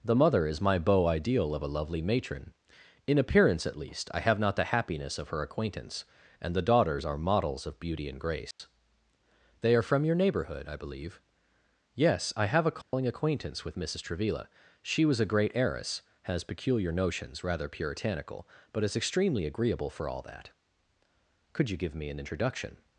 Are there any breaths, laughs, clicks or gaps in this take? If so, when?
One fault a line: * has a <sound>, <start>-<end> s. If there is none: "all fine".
* has a dropout, 8.5-8.6 s
* has a dropout, 12.8-12.9 s